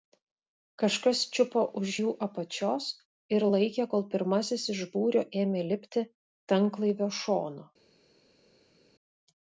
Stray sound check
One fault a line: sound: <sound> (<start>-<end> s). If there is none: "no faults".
no faults